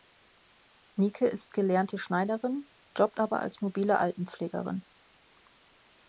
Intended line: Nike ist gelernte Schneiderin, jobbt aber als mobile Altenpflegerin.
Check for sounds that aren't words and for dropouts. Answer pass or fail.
pass